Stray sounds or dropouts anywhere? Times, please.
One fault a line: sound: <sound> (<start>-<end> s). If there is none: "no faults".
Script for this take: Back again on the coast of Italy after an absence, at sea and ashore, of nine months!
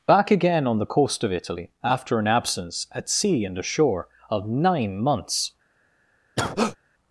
sound: cough (6.4-6.8 s)